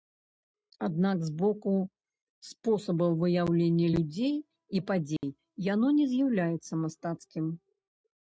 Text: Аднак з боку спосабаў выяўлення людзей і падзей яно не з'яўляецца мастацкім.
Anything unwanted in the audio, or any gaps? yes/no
yes